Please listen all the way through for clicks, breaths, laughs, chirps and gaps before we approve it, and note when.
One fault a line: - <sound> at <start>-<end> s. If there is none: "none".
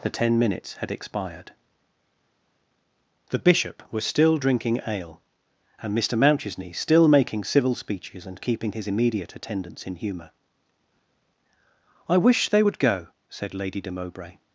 none